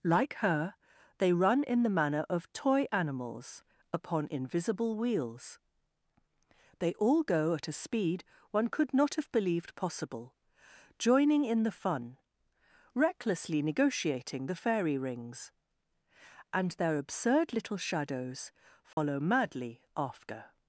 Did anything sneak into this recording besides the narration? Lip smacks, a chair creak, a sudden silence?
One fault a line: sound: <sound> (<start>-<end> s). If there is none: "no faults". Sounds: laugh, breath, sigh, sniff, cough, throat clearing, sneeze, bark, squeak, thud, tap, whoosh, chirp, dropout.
sound: dropout (18.9-19.0 s)